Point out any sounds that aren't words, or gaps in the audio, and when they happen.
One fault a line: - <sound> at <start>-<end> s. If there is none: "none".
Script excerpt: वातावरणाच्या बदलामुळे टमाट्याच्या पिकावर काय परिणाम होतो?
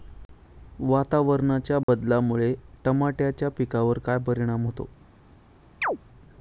- dropout at 1.8-1.9 s
- chirp at 5.8-6.0 s